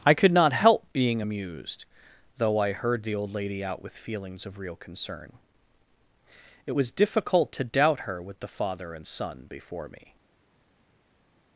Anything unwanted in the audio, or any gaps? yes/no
no